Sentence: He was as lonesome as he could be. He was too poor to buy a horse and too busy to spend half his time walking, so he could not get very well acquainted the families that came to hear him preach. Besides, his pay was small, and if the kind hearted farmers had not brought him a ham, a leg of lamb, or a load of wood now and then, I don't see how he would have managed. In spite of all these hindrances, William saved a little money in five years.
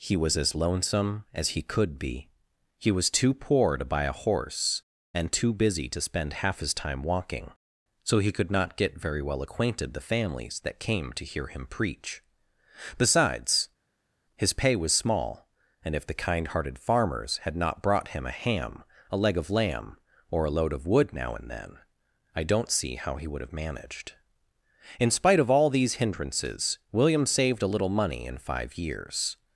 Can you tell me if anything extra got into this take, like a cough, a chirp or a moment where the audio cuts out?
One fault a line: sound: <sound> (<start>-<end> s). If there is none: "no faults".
no faults